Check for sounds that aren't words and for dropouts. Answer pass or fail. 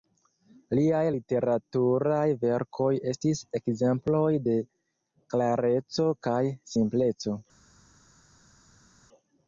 pass